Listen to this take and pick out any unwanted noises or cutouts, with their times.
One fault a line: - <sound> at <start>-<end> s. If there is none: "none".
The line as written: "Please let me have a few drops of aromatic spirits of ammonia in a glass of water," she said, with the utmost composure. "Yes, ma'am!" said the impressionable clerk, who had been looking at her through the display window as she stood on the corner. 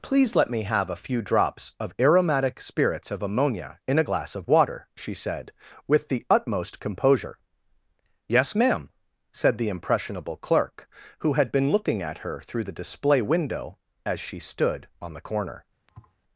- thud at 15.9-16.2 s